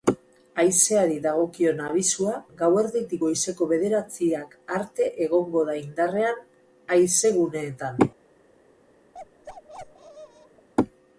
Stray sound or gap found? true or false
true